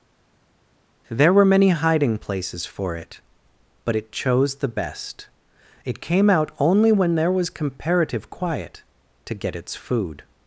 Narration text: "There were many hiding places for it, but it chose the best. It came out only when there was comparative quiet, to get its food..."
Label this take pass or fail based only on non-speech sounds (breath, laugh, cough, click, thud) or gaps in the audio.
pass